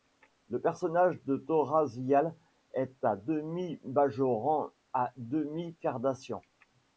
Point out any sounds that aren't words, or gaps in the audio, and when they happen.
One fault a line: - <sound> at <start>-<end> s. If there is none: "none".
none